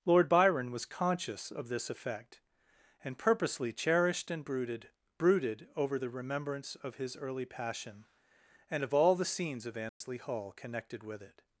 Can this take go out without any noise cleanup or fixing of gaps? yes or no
no